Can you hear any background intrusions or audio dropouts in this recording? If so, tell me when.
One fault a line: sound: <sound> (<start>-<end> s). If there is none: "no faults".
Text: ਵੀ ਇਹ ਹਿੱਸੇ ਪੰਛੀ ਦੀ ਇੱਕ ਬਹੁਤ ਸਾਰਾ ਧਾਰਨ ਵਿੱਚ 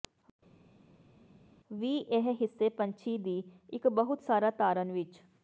no faults